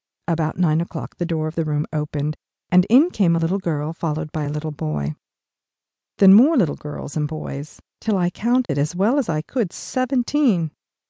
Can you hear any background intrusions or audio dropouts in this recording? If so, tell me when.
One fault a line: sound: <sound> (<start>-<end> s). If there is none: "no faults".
sound: dropout (8.6-8.7 s)